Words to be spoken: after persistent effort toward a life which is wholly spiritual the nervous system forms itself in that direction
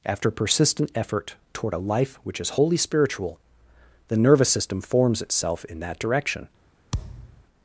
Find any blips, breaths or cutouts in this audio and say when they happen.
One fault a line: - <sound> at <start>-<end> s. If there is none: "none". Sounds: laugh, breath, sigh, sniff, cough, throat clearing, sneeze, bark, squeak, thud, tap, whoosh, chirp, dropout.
- thud at 6.9-7.4 s